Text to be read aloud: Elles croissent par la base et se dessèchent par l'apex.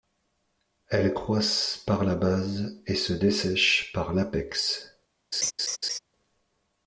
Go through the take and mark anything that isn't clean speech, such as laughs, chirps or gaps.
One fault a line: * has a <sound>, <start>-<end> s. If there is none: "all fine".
* has a laugh, 5.3-6.0 s